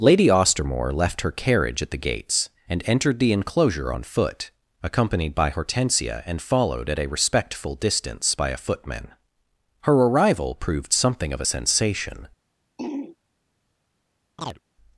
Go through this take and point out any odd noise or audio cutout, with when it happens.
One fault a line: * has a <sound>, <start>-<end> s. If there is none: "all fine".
* has a throat clearing, 12.8-13.2 s
* has a chirp, 14.4-14.6 s